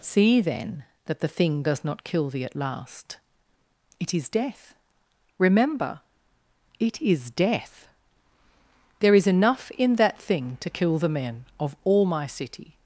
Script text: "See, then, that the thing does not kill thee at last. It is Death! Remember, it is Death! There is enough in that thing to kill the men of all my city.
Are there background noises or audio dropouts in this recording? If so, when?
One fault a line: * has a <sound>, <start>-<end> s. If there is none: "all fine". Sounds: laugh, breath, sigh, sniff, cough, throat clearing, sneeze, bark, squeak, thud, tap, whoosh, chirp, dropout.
all fine